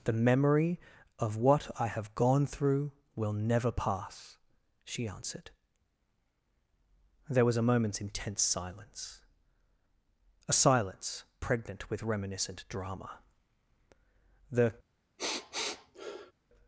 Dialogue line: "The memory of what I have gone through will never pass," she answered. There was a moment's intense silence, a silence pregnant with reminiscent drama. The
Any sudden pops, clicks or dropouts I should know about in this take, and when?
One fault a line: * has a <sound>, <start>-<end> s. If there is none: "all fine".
* has a sniff, 15.2-16.3 s